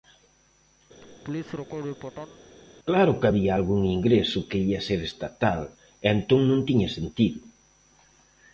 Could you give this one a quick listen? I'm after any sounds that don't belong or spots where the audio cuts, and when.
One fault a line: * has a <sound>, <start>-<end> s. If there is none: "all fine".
* has a laugh, 1.0-2.4 s